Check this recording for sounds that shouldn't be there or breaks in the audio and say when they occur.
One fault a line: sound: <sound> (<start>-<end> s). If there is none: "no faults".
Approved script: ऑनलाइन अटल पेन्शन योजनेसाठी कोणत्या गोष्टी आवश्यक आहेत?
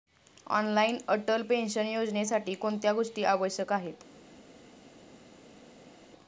no faults